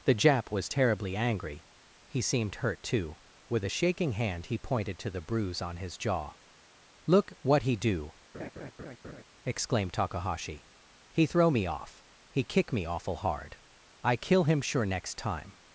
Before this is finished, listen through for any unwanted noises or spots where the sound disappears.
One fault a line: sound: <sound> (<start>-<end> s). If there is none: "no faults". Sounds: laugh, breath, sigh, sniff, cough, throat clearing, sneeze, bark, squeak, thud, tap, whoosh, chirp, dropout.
sound: laugh (8.3-9.2 s)